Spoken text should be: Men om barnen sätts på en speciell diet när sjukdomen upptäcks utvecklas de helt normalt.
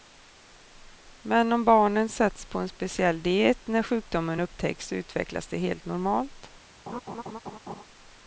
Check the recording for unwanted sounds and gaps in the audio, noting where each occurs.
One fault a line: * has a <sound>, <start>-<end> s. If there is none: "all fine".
* has a laugh, 6.9-7.8 s